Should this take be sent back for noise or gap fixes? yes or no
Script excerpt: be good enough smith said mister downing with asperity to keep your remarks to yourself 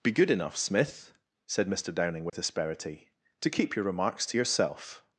yes